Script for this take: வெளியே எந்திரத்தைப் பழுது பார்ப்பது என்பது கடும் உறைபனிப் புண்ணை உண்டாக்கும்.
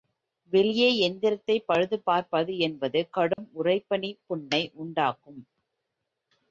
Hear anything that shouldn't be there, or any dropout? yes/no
yes